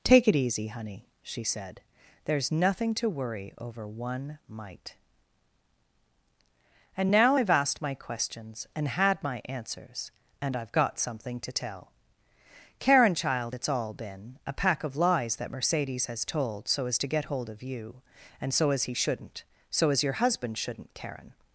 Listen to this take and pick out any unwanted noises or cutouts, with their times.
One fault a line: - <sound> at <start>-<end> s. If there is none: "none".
none